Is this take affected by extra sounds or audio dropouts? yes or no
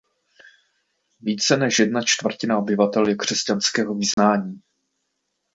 yes